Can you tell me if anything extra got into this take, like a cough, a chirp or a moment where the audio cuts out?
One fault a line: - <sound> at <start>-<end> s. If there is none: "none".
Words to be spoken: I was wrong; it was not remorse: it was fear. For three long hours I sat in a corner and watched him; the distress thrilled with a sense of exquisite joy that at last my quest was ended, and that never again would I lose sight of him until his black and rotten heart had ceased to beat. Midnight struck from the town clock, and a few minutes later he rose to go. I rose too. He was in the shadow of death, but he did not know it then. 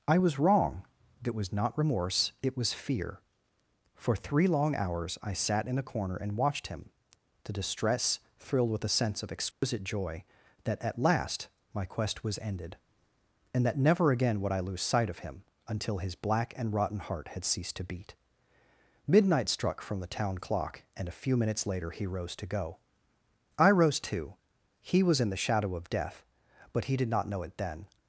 - dropout at 9.5-9.6 s